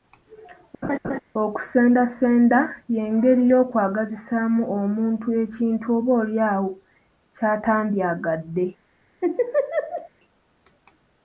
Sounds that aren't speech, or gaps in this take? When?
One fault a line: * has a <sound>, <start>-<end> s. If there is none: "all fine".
* has a laugh, 0.8-1.2 s
* has a laugh, 9.2-10.1 s